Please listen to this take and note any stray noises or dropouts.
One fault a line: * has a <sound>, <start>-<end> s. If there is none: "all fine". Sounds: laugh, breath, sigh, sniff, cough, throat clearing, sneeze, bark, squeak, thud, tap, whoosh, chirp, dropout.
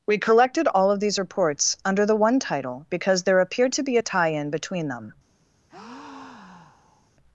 * has a breath, 5.7-7.1 s